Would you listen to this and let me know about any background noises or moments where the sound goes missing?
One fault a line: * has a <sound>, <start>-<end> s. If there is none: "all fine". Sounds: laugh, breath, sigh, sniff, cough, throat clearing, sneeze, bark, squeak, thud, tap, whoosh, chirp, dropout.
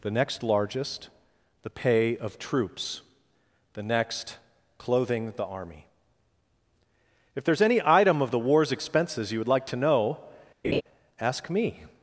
* has a laugh, 10.6-10.8 s